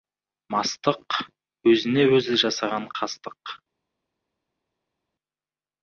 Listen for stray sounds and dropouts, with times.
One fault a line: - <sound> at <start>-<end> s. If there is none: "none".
none